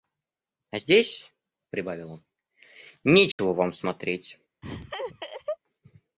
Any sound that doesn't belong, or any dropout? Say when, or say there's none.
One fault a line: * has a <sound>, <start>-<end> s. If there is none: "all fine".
* has a dropout, 3.3-3.4 s
* has a laugh, 4.6-5.6 s